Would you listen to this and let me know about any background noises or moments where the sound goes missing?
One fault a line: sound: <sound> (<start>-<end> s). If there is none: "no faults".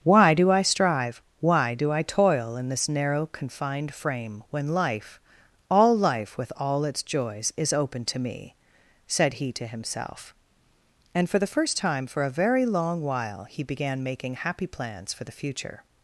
no faults